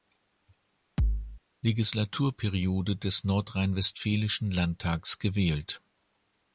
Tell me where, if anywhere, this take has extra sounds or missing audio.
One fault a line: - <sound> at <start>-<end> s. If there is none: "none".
- thud at 1.0-1.4 s